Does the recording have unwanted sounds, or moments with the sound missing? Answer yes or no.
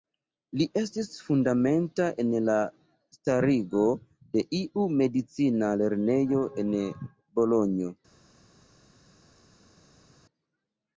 no